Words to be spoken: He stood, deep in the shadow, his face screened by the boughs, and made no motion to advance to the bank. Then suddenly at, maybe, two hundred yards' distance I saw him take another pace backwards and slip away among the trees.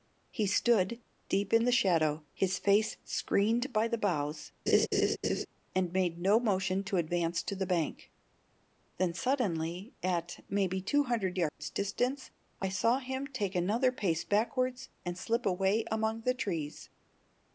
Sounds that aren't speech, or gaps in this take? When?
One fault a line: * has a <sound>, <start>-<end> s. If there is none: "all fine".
* has a laugh, 4.7-5.5 s
* has a dropout, 11.5-11.6 s